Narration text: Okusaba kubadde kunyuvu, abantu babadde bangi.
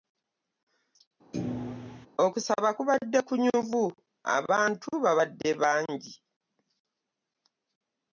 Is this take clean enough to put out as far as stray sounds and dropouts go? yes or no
no